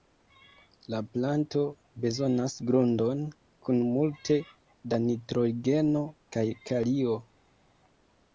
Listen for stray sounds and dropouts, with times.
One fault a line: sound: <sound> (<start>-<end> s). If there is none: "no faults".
no faults